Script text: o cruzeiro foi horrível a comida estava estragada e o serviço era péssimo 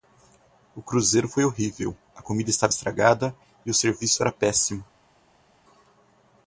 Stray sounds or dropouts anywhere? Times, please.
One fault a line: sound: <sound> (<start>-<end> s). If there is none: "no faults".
no faults